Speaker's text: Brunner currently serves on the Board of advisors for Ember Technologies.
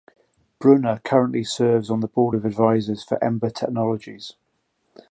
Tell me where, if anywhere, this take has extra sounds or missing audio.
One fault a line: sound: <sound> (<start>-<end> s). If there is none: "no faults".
no faults